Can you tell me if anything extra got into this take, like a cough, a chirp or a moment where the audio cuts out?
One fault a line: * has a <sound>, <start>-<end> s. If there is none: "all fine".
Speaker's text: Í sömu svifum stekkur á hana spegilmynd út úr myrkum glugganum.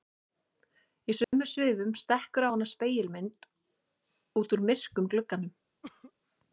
* has a dropout, 1.2-1.3 s
* has a cough, 5.8-6.1 s